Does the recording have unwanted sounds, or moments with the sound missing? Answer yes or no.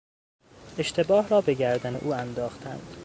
no